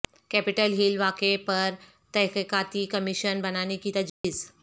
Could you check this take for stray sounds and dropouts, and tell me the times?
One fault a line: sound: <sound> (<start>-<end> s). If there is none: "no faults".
sound: dropout (4.1-4.2 s)